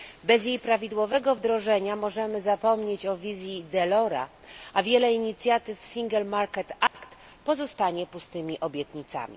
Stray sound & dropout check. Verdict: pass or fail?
fail